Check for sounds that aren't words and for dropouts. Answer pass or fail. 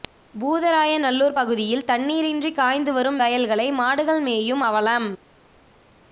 pass